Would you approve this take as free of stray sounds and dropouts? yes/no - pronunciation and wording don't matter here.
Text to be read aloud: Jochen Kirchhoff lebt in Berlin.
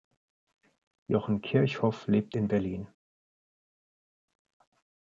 yes